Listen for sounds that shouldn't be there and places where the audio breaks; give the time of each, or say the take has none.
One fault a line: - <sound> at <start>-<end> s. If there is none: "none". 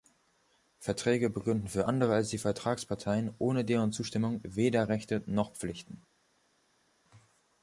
none